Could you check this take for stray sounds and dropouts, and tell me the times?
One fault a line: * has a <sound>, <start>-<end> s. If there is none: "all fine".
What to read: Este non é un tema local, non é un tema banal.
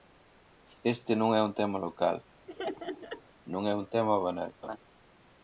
* has a laugh, 2.5-3.2 s
* has a laugh, 4.6-4.8 s